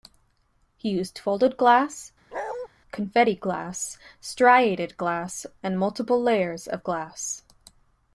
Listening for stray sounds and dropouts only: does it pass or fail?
fail